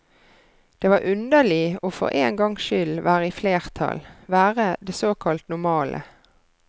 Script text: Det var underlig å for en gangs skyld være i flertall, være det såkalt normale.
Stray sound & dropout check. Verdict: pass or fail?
pass